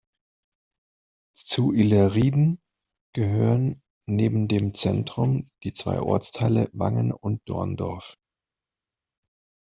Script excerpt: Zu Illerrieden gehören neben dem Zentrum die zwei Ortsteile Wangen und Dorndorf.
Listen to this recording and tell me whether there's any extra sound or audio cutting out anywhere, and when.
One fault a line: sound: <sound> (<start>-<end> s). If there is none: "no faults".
no faults